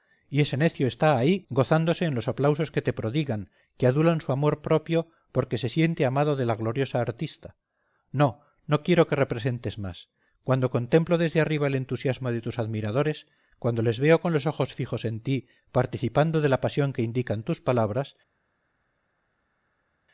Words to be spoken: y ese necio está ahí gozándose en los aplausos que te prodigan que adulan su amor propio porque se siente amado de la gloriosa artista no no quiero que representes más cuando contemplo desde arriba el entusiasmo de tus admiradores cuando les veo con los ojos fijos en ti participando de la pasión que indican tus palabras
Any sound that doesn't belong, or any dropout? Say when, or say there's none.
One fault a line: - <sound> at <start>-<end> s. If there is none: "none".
none